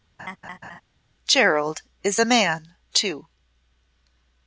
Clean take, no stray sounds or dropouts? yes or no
no